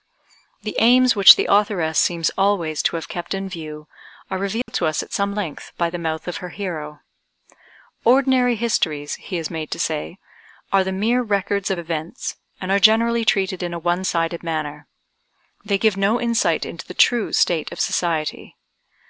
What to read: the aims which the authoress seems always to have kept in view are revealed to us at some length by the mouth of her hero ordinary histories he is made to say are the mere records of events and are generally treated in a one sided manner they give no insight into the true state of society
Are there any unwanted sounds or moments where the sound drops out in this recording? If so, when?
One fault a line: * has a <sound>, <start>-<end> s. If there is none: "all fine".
* has a dropout, 4.6-4.7 s